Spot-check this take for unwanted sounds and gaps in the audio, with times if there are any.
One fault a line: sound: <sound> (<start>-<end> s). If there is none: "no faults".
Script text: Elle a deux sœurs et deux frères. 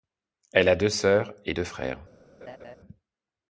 sound: laugh (2.4-2.8 s)